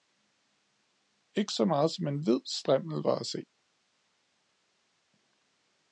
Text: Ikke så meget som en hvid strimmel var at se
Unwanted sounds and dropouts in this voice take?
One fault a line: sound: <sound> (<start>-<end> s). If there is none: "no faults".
no faults